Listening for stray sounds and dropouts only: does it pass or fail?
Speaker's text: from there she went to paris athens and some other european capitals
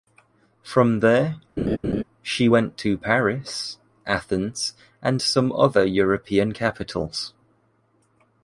fail